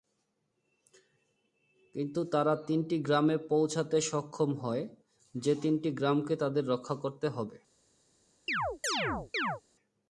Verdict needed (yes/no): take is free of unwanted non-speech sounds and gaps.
no